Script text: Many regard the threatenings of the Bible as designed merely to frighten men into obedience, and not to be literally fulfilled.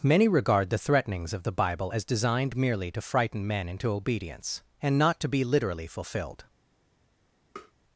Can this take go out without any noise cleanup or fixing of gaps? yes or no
no